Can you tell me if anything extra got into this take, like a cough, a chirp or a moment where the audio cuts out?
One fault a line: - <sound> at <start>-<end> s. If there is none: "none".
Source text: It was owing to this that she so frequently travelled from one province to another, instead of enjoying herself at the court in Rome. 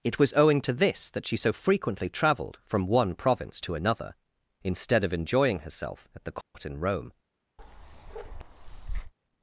- dropout at 6.4-6.5 s
- bark at 7.6-9.1 s